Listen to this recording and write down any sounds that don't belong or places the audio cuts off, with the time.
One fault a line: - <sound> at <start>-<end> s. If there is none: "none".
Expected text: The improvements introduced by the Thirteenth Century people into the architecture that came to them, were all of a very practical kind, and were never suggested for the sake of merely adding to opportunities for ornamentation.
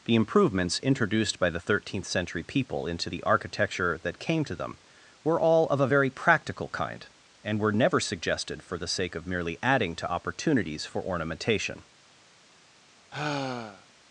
- sigh at 13.1-13.9 s